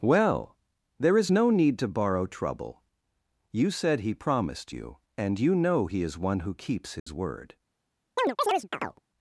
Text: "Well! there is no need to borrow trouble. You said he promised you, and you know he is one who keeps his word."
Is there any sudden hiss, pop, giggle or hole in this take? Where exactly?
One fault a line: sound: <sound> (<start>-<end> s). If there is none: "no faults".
sound: dropout (7.0-7.1 s)
sound: chirp (8.2-9.0 s)